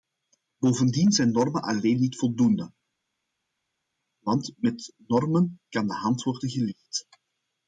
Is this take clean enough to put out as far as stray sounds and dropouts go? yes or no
yes